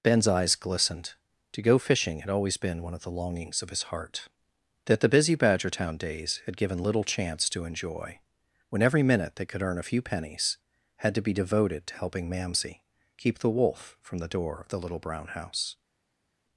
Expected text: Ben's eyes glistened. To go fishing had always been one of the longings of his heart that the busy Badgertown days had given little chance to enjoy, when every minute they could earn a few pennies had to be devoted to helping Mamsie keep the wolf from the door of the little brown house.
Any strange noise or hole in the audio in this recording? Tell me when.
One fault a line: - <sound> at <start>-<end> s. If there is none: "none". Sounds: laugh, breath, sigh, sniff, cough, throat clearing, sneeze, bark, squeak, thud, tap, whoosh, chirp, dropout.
none